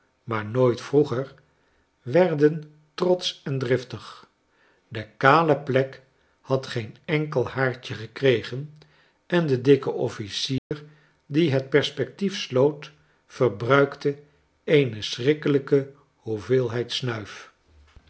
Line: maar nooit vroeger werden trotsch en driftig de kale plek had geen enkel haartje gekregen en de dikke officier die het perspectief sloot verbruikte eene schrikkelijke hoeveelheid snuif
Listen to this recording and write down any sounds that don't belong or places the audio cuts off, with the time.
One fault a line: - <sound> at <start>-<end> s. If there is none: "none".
- dropout at 10.6-10.7 s